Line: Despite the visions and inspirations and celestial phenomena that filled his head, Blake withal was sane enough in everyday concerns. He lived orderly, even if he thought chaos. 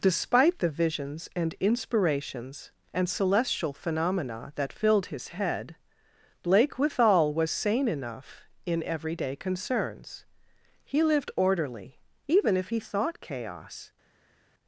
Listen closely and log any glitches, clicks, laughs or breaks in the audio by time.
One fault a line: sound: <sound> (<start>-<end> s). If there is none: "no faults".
no faults